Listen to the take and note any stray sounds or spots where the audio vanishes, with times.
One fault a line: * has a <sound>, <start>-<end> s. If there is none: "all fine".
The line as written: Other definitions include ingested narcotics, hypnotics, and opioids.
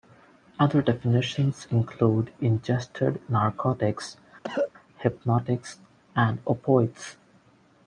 * has a cough, 4.4-4.7 s